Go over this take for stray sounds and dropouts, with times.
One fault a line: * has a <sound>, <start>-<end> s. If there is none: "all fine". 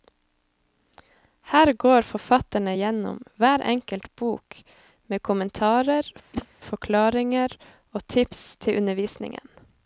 * has a whoosh, 6.3-6.5 s